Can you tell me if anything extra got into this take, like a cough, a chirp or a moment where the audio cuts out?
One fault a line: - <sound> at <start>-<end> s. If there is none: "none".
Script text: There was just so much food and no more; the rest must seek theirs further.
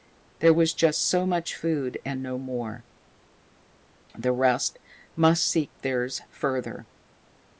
none